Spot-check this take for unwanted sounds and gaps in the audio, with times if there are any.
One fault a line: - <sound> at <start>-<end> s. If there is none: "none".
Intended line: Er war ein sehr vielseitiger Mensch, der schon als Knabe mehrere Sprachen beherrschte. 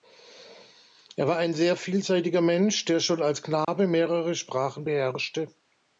- dropout at 3.6-3.7 s